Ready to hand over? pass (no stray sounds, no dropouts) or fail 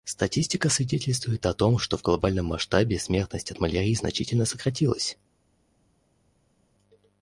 pass